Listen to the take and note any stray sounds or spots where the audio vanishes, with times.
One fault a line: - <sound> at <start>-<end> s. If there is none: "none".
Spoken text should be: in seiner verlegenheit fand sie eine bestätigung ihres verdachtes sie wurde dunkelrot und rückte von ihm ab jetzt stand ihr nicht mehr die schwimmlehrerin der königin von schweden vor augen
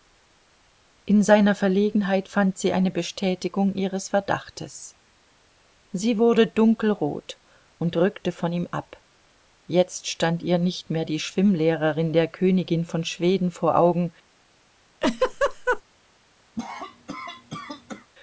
- laugh at 15.0-15.8 s
- cough at 16.5-18.1 s